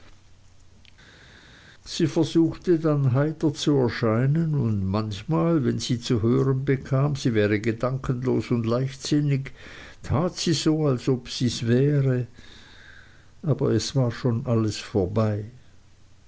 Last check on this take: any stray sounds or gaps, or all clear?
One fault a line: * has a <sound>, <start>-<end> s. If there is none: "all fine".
all fine